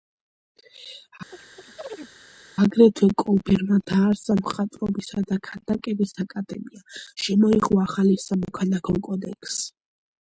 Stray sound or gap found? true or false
true